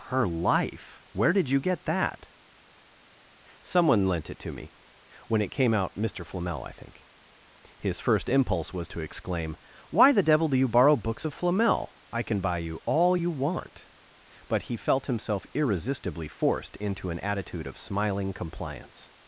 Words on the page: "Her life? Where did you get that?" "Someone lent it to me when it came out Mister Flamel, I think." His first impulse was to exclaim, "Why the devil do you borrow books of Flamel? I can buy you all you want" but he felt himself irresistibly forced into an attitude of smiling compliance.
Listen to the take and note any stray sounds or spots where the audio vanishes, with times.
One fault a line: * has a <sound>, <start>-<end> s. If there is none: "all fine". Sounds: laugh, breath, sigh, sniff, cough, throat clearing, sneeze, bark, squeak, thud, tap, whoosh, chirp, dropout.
all fine